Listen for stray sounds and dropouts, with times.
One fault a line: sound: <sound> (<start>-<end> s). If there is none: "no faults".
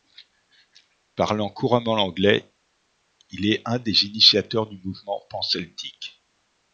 no faults